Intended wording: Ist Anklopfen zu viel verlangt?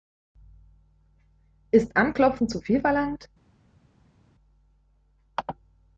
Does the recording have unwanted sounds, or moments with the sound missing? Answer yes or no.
no